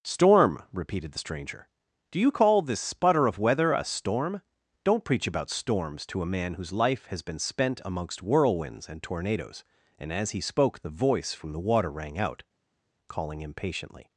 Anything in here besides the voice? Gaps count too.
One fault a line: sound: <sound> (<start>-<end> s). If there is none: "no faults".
no faults